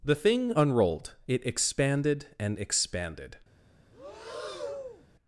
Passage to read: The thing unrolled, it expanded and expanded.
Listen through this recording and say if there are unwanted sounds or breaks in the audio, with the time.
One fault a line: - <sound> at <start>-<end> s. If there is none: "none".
- breath at 3.9-5.1 s